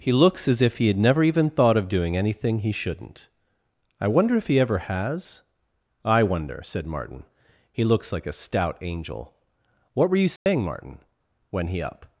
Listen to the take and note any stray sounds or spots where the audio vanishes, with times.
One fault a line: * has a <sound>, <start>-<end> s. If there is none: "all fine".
* has a dropout, 10.4-10.5 s